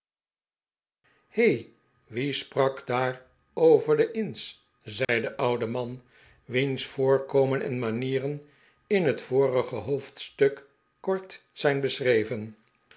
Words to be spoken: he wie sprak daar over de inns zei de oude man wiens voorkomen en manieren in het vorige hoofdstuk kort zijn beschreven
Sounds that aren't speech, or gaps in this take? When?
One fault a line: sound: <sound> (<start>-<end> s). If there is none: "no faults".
sound: dropout (5.0-5.1 s)